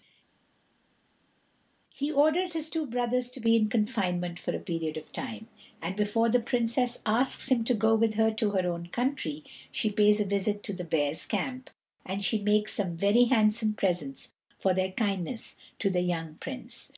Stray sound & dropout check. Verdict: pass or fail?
pass